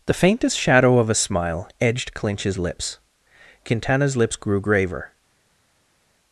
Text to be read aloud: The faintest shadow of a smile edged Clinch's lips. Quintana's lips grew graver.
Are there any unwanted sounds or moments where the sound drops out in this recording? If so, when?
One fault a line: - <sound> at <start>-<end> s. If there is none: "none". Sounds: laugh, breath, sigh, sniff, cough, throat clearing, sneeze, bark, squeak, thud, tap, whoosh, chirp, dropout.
none